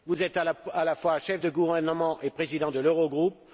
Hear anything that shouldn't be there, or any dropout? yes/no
no